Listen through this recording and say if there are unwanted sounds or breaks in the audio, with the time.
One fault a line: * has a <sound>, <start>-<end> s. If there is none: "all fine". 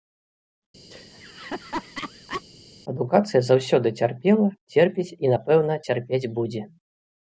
* has a laugh, 0.9-2.4 s